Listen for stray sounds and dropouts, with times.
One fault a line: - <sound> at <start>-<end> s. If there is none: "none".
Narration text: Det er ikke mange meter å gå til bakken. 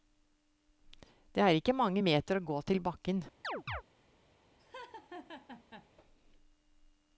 - chirp at 3.4-3.8 s
- laugh at 4.6-5.9 s